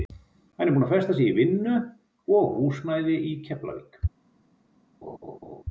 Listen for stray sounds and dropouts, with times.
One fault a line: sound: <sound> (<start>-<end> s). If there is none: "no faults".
sound: laugh (5.0-5.6 s)